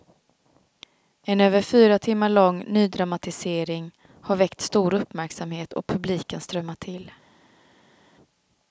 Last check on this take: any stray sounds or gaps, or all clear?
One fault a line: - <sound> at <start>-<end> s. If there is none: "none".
none